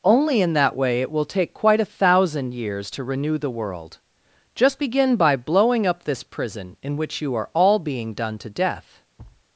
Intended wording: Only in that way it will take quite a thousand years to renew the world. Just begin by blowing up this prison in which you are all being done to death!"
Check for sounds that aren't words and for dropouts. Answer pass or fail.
fail